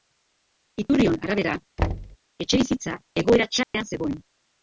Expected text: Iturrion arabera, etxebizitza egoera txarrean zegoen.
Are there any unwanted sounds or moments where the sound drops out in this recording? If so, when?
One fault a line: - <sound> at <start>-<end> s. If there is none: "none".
- thud at 1.8-2.2 s
- dropout at 3.6-3.7 s